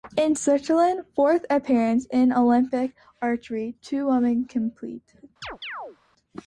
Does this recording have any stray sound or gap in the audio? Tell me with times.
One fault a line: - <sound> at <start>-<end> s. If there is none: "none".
- chirp at 5.4-6.0 s